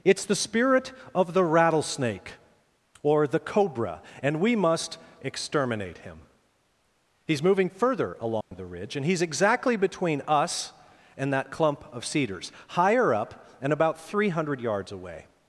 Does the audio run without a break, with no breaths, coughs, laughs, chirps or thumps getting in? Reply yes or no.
no